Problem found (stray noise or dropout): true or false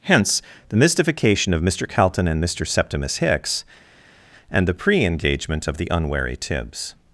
false